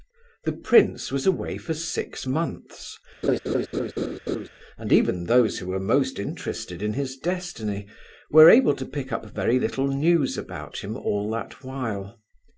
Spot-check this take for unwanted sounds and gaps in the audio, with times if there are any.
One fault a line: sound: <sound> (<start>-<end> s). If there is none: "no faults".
sound: laugh (3.2-4.5 s)